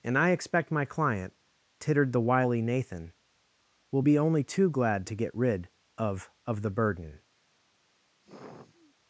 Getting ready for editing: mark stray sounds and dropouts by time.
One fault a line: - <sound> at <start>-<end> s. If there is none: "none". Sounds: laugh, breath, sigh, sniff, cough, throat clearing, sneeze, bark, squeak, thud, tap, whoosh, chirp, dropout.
- sigh at 8.2-9.0 s